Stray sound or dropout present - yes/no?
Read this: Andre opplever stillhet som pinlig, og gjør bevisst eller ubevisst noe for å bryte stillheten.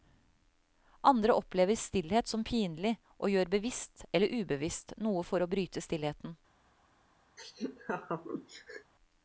yes